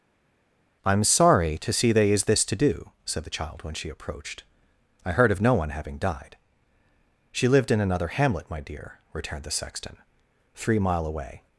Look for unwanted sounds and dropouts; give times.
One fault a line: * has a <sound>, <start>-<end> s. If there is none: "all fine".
all fine